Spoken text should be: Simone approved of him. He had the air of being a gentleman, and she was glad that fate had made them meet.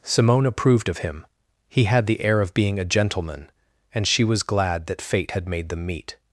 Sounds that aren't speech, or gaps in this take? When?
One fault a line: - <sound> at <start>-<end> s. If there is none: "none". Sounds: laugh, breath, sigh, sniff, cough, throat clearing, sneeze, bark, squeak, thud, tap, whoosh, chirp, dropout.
none